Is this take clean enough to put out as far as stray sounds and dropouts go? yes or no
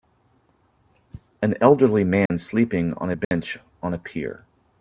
no